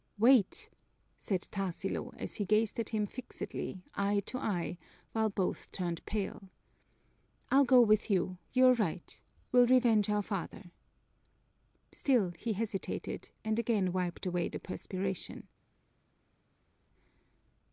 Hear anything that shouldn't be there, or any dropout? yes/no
no